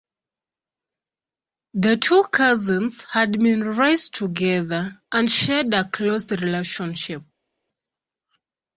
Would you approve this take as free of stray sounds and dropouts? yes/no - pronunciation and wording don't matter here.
yes